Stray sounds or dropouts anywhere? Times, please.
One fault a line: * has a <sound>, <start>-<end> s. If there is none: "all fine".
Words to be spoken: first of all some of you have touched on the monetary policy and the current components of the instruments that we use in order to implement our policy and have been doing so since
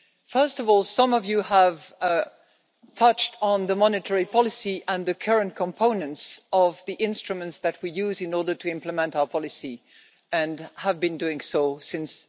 all fine